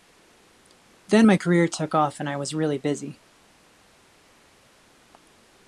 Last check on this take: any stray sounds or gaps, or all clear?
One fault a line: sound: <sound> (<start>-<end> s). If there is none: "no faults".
no faults